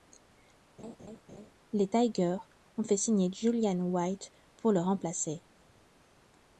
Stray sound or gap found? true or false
true